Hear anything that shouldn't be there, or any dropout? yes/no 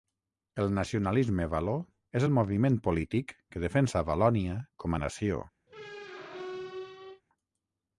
yes